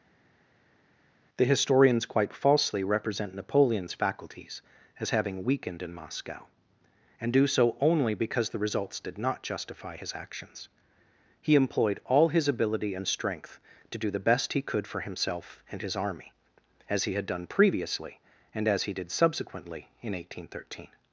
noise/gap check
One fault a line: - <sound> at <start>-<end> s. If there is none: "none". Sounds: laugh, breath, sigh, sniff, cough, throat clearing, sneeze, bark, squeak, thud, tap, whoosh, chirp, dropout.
none